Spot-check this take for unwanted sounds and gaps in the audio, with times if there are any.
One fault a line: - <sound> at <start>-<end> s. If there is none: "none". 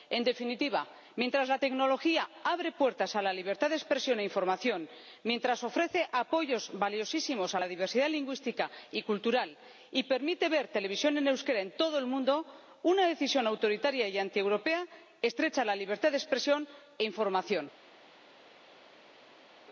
none